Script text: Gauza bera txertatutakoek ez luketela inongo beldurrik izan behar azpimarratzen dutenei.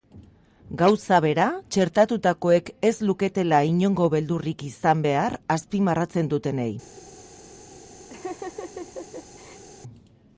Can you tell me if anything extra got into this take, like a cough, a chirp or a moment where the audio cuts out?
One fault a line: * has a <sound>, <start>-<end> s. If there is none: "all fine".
* has a laugh, 8.1-9.6 s